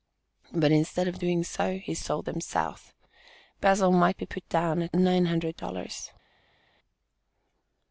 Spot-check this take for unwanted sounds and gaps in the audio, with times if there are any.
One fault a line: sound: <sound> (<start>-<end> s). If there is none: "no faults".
no faults